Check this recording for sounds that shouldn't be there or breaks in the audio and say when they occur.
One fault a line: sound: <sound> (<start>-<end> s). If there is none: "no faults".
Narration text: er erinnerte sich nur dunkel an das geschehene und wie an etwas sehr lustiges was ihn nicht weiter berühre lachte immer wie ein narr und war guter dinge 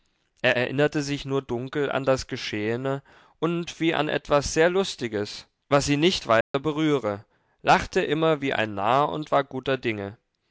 sound: dropout (6.4-6.5 s)